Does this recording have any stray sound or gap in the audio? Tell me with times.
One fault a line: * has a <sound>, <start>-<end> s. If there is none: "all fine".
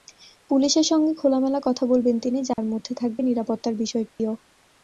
* has a dropout, 2.5-2.6 s
* has a dropout, 4.1-4.2 s